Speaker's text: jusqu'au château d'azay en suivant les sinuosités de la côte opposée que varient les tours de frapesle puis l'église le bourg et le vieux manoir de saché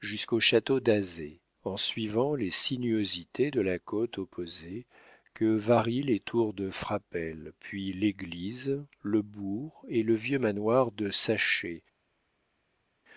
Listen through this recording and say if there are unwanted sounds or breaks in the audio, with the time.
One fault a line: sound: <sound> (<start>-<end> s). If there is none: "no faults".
no faults